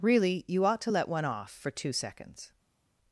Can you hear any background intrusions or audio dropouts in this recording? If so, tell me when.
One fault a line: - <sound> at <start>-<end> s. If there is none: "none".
none